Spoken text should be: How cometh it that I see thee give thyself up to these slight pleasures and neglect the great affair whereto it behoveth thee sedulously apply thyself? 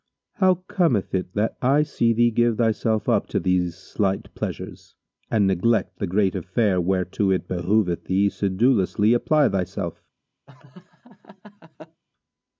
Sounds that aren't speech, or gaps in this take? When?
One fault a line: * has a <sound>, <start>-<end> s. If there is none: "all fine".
* has a laugh, 10.5-12.0 s